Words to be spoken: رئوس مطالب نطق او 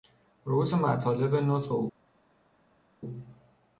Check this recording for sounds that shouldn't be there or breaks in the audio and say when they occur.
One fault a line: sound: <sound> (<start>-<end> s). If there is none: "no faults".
no faults